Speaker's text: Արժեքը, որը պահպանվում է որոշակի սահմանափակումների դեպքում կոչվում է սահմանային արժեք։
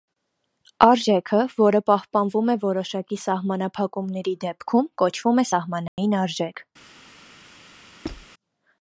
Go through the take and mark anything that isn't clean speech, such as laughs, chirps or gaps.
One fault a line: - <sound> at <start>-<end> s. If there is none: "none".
- dropout at 5.9-6.0 s
- squeak at 8.0-8.3 s